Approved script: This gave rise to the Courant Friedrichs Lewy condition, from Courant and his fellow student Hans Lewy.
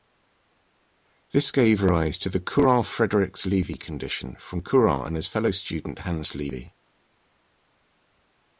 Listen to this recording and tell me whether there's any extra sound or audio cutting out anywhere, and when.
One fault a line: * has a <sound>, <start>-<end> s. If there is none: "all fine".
all fine